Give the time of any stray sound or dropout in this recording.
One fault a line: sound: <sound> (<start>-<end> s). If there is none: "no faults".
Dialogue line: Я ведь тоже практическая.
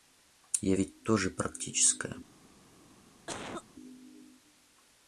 sound: cough (3.3-3.6 s)